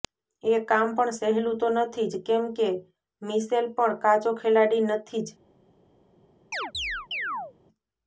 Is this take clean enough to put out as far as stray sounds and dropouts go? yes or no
no